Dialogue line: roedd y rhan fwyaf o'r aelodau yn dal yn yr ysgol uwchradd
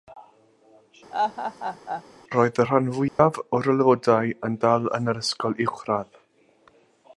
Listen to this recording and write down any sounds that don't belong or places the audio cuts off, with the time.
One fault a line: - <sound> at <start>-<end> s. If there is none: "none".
- laugh at 1.1-2.0 s
- dropout at 3.1-3.2 s